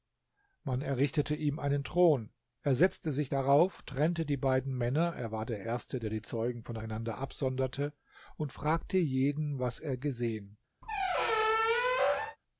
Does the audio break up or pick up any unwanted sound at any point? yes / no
yes